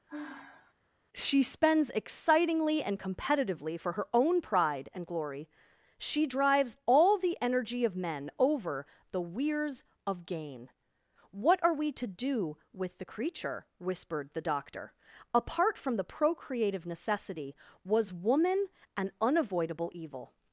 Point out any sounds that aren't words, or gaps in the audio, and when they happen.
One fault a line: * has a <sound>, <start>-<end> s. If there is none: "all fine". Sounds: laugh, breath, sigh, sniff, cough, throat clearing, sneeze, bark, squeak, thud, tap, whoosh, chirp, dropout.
* has a sigh, 0.1-0.7 s